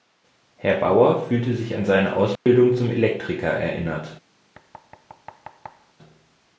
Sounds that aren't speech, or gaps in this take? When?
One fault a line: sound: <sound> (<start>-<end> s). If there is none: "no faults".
sound: dropout (2.4-2.5 s)
sound: thud (4.5-5.9 s)